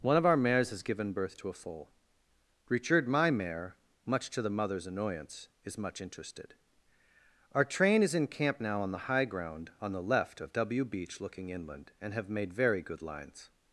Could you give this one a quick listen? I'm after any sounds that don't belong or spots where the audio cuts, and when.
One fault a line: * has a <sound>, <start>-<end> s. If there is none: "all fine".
all fine